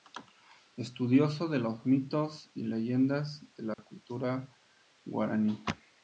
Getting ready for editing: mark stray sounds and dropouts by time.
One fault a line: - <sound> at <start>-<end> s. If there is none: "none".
- dropout at 3.7-3.8 s